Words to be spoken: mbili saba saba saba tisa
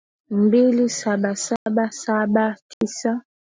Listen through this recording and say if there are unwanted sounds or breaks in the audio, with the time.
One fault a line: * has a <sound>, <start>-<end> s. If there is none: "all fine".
* has a dropout, 1.6-1.7 s
* has a dropout, 2.7-2.8 s